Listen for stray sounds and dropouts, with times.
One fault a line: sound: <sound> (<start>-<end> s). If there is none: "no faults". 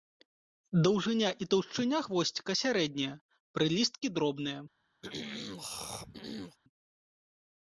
sound: throat clearing (5.0-6.6 s)